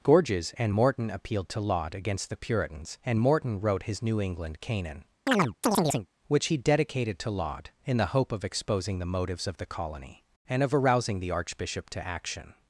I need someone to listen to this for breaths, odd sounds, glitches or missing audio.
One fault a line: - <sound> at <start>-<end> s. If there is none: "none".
- chirp at 5.3-6.1 s